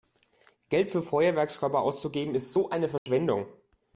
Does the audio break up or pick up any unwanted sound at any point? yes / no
yes